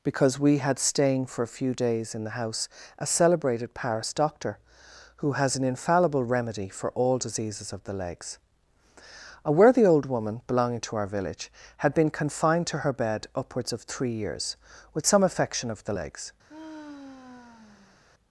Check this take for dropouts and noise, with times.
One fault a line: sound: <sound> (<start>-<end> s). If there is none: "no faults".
sound: sigh (16.5-18.0 s)